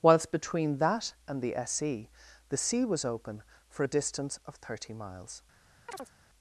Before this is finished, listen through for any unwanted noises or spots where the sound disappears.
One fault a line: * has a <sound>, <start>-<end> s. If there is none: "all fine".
* has a chirp, 5.9-6.1 s